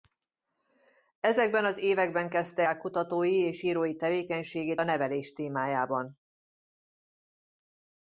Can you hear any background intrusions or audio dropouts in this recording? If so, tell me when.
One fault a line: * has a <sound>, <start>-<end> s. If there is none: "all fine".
all fine